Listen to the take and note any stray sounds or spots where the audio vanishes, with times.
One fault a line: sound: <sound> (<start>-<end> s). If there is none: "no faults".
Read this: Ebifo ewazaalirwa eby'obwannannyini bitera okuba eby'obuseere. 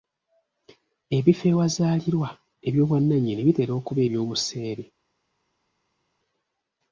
no faults